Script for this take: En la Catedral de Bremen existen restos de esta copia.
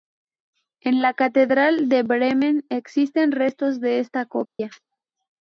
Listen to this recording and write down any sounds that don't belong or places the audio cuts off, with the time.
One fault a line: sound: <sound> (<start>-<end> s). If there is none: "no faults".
sound: dropout (4.5-4.6 s)